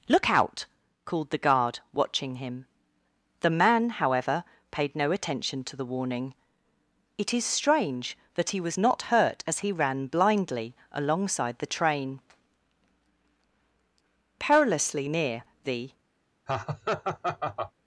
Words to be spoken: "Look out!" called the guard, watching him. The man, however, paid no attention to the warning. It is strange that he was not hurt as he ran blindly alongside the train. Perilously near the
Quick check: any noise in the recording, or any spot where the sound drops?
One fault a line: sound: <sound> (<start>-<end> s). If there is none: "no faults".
sound: laugh (16.5-17.7 s)